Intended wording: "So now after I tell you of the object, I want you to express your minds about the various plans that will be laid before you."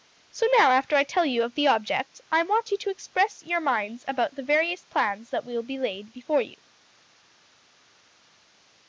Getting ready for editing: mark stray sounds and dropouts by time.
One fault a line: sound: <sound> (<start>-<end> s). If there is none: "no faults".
no faults